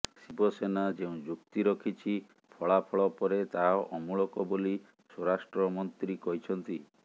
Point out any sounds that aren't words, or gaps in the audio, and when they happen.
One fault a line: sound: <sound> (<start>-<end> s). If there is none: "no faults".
no faults